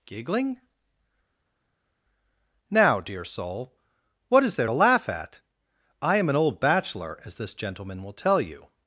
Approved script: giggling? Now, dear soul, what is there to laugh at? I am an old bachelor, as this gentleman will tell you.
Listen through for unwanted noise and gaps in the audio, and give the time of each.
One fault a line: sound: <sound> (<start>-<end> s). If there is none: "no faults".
no faults